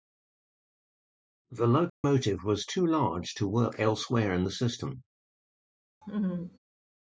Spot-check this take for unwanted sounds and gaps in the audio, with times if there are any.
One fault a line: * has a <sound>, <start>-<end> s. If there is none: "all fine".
* has a dropout, 1.9-2.0 s
* has a laugh, 6.0-6.6 s